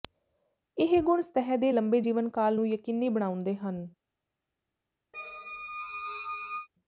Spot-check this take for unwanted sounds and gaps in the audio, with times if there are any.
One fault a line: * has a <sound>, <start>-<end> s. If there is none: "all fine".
* has a squeak, 5.1-6.7 s